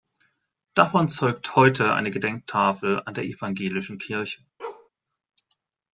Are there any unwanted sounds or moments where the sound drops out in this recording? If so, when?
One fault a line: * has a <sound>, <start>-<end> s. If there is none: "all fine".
* has a bark, 4.6-4.9 s